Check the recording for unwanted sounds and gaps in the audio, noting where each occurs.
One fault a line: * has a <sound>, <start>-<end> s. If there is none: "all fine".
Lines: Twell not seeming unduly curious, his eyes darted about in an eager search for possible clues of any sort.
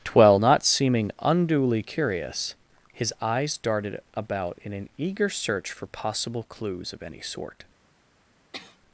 * has a sneeze, 8.5-8.8 s